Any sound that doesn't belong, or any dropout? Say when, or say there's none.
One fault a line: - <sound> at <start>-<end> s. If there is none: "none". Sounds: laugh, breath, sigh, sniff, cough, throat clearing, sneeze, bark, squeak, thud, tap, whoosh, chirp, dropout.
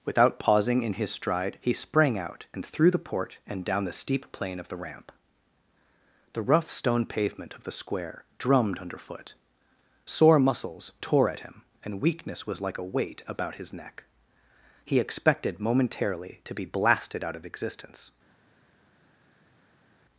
none